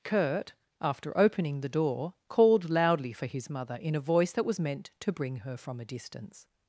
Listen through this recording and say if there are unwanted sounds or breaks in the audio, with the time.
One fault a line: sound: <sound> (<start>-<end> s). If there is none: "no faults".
no faults